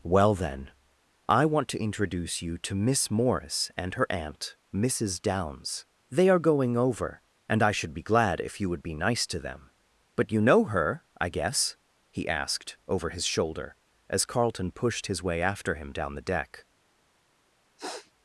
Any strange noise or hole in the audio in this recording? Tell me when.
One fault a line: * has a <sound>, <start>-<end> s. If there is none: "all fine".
* has a sniff, 17.8-18.1 s